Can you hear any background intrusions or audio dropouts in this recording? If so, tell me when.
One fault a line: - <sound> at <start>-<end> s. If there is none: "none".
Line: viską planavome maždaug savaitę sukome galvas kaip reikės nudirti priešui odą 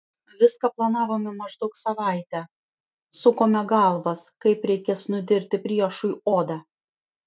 none